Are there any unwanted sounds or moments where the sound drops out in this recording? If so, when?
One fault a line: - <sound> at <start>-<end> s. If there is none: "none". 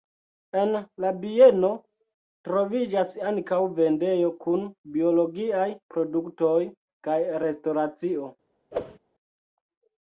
- whoosh at 8.7-9.0 s